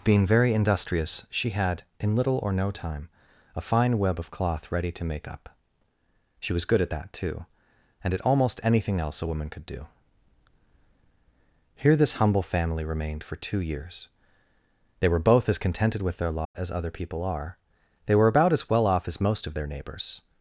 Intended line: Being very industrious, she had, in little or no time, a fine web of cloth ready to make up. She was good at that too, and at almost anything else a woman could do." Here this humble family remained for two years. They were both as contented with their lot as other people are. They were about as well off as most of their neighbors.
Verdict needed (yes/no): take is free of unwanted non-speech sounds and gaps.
no